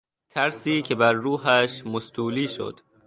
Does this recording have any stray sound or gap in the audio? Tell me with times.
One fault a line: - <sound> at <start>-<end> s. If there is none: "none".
none